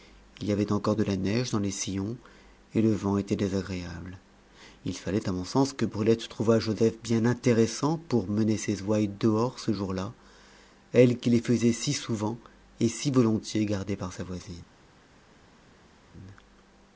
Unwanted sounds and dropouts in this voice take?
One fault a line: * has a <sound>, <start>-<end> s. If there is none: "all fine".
all fine